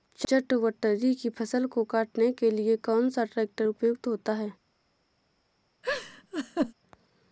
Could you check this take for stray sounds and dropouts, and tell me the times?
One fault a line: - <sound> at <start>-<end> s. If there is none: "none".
- laugh at 5.8-6.7 s